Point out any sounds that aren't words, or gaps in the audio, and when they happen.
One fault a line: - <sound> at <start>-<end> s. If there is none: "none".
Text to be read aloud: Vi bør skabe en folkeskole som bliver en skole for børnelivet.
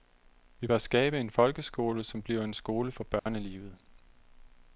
- dropout at 3.2-3.3 s